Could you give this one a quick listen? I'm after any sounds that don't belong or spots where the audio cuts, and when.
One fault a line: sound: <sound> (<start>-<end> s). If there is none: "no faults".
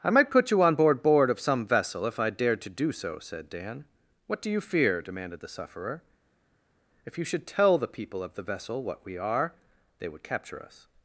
no faults